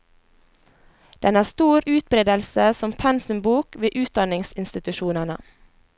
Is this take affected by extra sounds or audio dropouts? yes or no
no